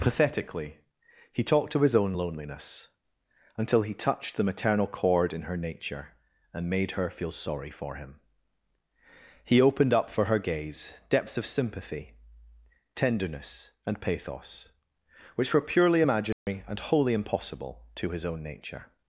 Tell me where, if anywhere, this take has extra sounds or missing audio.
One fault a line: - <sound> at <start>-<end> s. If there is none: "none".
- dropout at 16.3-16.5 s